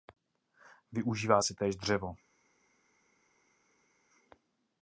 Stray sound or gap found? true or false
false